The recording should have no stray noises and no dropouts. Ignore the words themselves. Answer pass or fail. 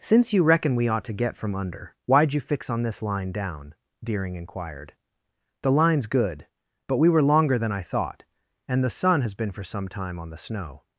pass